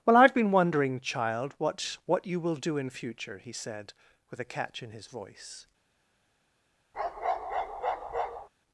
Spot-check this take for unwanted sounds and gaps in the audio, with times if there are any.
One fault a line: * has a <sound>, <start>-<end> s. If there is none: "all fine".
* has a bark, 6.9-8.5 s